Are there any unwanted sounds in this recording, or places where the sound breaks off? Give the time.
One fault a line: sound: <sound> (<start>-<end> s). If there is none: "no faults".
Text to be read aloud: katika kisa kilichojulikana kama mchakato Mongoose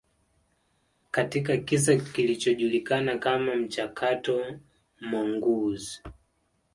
no faults